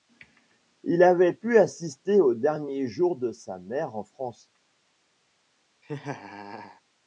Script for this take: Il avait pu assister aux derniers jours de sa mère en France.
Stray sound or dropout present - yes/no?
yes